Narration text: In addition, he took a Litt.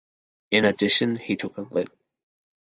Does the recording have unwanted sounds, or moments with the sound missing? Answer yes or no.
no